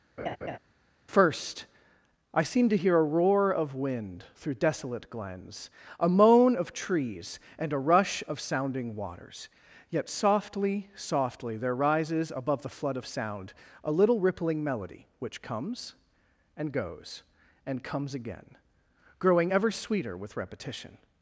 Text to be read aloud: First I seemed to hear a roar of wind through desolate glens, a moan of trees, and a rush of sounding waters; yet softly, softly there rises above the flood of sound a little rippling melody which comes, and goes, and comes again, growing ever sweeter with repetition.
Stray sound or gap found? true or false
true